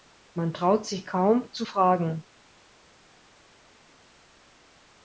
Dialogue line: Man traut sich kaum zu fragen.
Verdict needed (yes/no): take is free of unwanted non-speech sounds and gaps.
yes